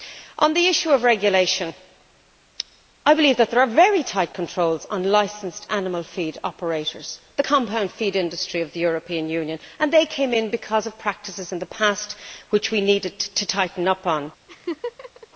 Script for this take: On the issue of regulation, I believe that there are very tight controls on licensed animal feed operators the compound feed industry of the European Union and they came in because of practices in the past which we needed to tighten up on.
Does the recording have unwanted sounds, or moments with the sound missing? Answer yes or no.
yes